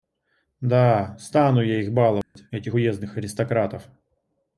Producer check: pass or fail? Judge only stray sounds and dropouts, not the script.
fail